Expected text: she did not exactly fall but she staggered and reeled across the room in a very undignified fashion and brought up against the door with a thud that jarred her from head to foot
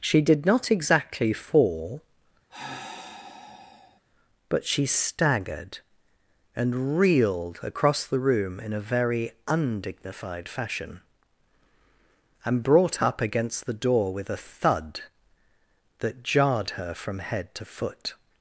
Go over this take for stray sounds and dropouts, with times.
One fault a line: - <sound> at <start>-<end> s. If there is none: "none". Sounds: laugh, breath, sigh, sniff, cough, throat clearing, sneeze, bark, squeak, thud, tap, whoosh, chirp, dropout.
- sigh at 2.5-4.0 s